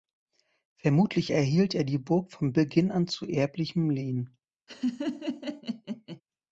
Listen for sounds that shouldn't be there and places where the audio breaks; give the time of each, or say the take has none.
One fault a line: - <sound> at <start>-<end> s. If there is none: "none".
- laugh at 4.7-6.2 s